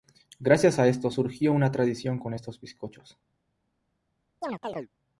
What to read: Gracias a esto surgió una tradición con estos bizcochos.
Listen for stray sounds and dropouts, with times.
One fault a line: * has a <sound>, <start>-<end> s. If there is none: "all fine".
* has a chirp, 4.4-4.9 s